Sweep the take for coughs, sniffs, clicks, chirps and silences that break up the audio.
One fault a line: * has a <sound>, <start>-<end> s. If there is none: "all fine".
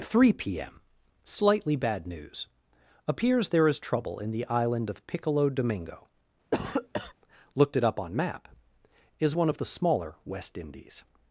* has a cough, 6.5-7.1 s